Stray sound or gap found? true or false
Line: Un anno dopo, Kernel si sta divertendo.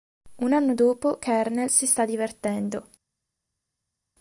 false